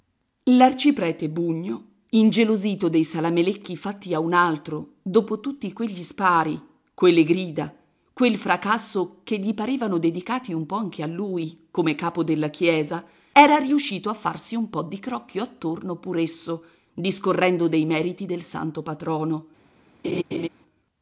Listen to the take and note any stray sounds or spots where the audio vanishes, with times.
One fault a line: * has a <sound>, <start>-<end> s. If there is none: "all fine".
* has a laugh, 20.0-20.5 s